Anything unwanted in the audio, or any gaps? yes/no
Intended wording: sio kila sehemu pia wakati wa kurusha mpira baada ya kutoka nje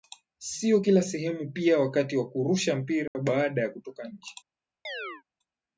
yes